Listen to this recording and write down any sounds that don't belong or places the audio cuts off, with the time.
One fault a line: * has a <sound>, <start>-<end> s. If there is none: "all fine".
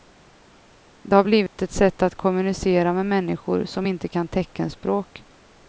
* has a dropout, 1.5-1.6 s